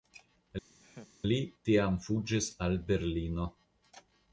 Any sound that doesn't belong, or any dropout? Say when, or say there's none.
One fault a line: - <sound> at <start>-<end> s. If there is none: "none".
- laugh at 0.8-1.1 s